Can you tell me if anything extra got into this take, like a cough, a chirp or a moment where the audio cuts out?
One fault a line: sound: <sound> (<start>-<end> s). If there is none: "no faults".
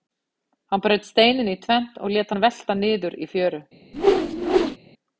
sound: whoosh (3.9-4.8 s)